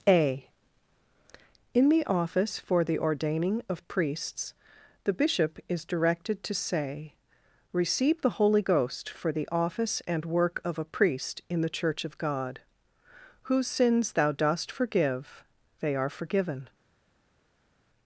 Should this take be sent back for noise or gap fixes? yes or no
no